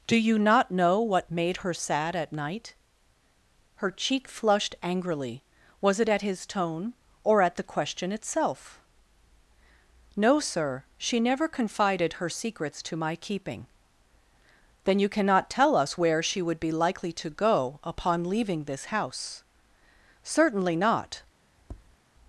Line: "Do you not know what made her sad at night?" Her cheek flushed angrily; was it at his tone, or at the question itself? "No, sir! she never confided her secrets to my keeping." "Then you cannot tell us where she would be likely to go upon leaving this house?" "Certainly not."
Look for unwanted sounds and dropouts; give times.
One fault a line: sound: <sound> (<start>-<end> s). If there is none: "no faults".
sound: tap (21.6-22.0 s)